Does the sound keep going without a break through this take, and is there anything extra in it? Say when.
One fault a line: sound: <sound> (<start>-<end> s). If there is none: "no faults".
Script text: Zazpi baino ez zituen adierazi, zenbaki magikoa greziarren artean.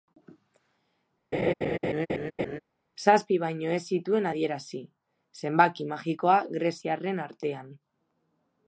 sound: laugh (1.3-2.6 s)